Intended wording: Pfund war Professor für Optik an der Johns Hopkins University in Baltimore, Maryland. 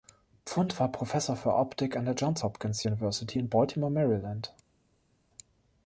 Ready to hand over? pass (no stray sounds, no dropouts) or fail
pass